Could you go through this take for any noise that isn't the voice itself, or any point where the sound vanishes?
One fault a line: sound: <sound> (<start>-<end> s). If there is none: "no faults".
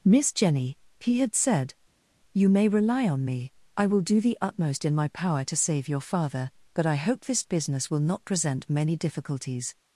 no faults